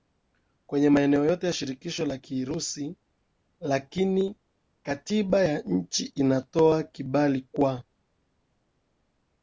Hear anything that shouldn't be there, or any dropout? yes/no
no